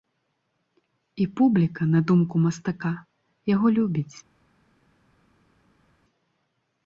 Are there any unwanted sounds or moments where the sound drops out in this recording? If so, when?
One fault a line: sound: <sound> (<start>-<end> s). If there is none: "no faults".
no faults